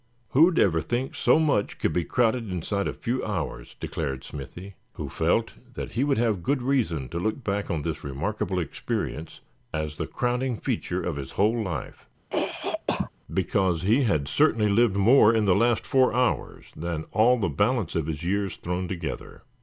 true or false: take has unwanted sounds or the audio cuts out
true